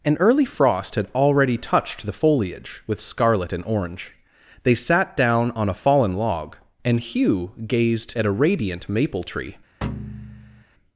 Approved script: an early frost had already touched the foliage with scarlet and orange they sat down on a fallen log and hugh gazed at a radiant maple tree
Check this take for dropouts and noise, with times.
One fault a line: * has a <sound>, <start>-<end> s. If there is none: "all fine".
* has a thud, 9.8-10.6 s